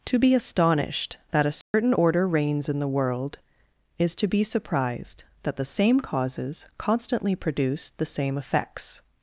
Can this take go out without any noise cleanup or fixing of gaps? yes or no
no